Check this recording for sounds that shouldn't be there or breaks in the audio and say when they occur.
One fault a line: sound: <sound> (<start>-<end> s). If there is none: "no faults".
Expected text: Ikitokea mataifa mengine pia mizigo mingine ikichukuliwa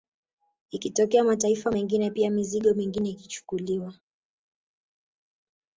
no faults